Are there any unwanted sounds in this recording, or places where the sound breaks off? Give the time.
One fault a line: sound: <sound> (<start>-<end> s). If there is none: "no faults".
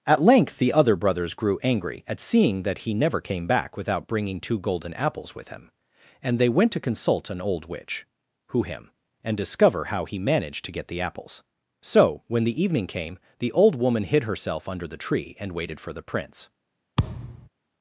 sound: thud (17.0-17.5 s)